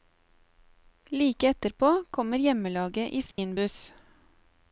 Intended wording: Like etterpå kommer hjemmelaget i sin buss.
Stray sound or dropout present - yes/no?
yes